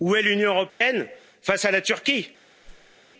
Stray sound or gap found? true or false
true